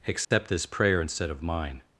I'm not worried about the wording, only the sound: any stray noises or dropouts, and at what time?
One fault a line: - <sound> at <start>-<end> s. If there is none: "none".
- dropout at 0.2-0.3 s